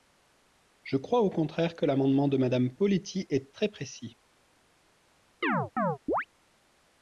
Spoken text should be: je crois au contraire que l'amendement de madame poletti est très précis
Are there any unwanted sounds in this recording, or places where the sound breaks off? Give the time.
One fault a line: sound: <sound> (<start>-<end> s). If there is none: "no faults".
sound: chirp (5.4-6.3 s)